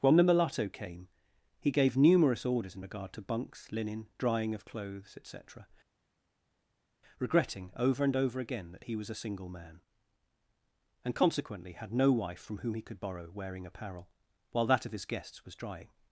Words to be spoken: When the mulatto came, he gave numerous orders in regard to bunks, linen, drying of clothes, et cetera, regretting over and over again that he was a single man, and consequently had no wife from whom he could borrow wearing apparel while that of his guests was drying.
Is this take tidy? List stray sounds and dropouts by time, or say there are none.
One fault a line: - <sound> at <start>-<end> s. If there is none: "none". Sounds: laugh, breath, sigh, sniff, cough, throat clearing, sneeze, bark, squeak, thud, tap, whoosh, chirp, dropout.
none